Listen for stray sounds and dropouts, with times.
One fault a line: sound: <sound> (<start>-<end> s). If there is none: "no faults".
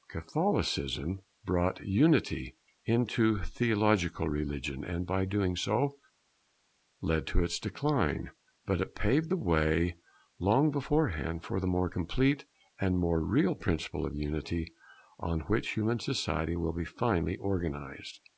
no faults